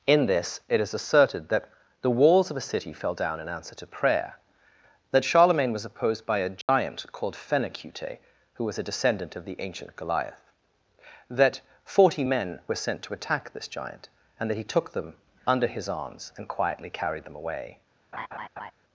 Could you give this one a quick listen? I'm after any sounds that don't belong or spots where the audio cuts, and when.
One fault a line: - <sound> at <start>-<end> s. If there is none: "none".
- dropout at 6.6-6.7 s
- laugh at 18.1-18.7 s